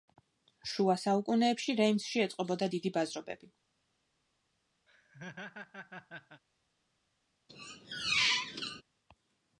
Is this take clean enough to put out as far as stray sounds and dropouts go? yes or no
no